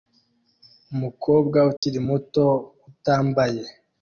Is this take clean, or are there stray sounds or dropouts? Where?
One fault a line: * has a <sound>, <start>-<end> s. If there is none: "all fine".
* has a dropout, 1.8-1.8 s